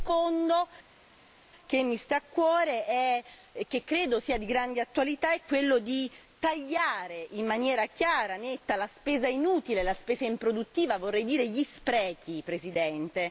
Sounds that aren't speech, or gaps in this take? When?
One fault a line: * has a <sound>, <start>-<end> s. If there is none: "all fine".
all fine